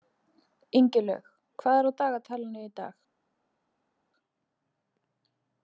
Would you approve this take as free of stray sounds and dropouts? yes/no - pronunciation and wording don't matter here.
yes